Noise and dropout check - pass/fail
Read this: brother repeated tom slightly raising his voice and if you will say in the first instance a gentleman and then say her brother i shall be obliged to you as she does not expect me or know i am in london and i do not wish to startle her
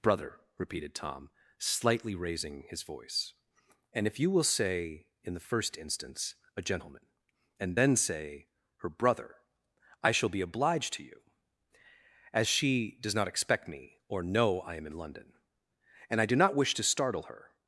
pass